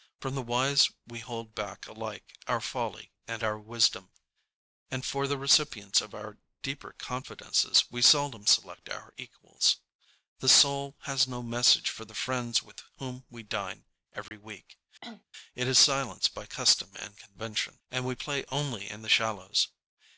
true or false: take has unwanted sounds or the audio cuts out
true